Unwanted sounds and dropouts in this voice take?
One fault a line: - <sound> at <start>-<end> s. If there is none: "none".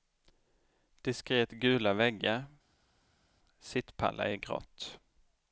none